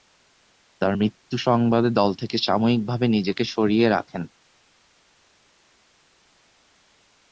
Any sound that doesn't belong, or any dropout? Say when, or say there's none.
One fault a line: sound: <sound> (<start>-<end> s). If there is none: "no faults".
no faults